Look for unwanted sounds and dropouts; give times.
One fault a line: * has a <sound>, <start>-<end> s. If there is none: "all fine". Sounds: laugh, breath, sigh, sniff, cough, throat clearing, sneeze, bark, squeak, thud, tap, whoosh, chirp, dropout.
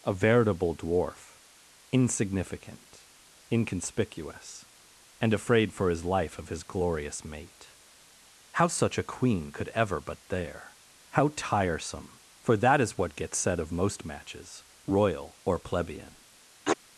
* has a sneeze, 16.7-16.8 s